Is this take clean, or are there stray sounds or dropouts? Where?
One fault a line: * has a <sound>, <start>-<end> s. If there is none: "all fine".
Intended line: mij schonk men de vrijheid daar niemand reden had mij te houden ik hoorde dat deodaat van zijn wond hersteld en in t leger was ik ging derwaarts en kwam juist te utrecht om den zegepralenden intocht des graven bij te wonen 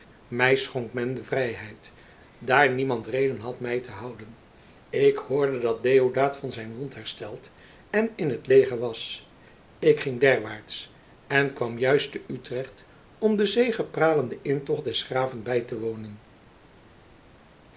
all fine